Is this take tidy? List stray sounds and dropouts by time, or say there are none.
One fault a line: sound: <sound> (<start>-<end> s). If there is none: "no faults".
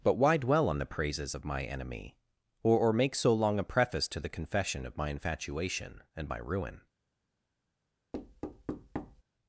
sound: thud (8.1-9.2 s)